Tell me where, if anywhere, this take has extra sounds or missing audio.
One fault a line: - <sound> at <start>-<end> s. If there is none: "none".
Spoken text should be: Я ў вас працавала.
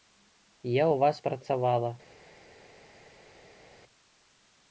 none